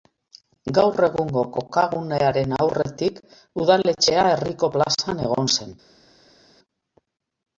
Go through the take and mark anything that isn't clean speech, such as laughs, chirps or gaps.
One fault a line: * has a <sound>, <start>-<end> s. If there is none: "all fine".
all fine